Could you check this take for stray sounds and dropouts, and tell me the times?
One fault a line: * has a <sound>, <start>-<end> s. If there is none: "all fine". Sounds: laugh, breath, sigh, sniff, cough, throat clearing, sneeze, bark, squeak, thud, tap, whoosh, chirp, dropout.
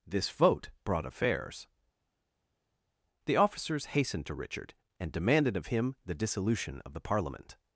all fine